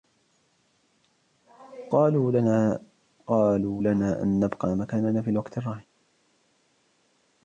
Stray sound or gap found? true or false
false